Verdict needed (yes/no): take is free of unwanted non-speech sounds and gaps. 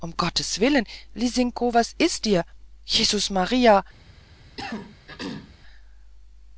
no